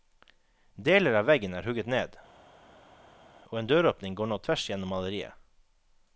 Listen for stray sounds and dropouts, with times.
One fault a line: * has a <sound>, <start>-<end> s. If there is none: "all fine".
all fine